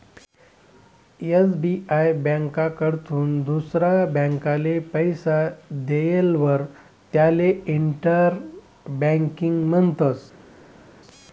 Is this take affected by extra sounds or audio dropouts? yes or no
no